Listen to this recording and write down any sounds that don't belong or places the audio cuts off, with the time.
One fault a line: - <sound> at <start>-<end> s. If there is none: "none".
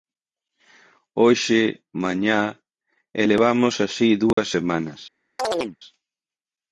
- dropout at 4.3-4.4 s
- chirp at 5.4-5.8 s